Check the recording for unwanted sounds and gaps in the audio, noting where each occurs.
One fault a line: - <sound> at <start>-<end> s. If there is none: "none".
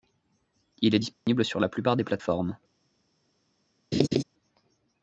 - dropout at 1.1-1.3 s
- laugh at 3.9-4.2 s